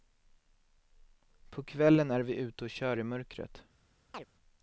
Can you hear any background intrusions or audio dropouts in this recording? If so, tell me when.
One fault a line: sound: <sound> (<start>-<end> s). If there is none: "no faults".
sound: chirp (4.1-4.3 s)